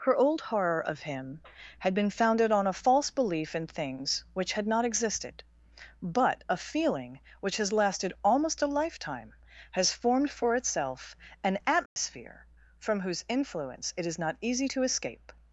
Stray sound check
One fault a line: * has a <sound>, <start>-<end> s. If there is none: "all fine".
* has a dropout, 11.9-12.0 s